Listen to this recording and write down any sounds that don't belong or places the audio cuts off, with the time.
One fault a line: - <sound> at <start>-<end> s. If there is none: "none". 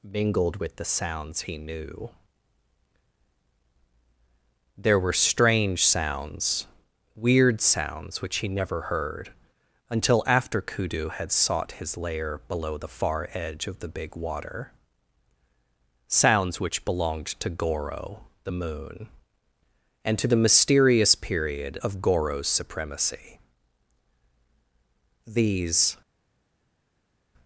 none